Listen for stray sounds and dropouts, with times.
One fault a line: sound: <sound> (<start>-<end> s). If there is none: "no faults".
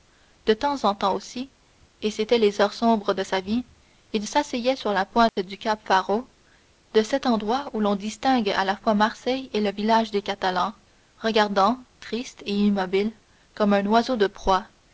sound: dropout (5.3-5.4 s)